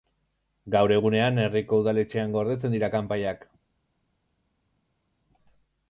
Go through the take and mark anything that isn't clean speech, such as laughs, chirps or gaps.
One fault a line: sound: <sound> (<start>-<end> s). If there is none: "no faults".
no faults